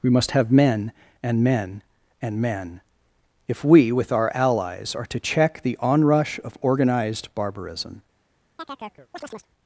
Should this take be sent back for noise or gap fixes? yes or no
yes